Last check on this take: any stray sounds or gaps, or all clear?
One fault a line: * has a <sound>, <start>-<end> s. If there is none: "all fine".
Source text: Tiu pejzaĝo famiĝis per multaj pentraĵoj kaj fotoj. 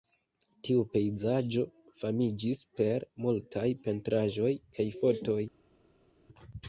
all fine